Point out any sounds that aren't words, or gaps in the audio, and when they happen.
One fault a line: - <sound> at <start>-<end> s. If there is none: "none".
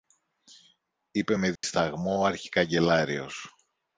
- dropout at 1.6-1.6 s